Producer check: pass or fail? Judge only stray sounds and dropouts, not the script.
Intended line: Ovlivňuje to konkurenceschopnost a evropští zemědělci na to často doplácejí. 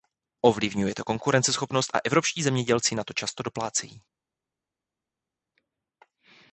pass